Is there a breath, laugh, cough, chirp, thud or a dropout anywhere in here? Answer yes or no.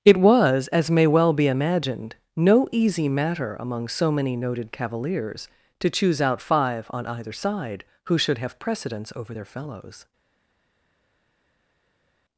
no